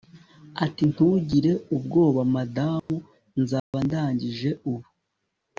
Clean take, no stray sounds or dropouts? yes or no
no